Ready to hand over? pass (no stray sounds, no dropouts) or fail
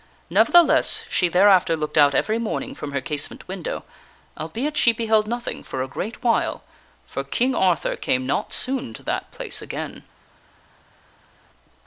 pass